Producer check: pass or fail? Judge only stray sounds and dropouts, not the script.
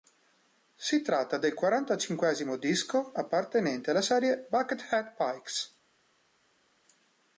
pass